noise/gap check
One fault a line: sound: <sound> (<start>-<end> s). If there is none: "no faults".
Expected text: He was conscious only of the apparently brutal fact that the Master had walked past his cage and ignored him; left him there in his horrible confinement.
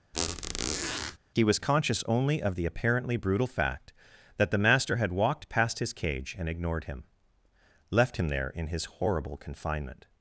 sound: squeak (0.1-1.2 s)